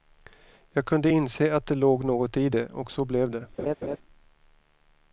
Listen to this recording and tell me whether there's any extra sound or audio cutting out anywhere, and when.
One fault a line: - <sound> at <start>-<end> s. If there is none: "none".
- laugh at 3.6-4.0 s